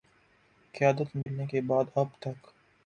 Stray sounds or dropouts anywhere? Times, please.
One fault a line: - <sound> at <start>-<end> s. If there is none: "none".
- dropout at 1.2-1.3 s